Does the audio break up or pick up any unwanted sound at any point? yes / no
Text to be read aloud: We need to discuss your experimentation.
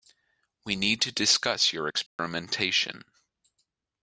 yes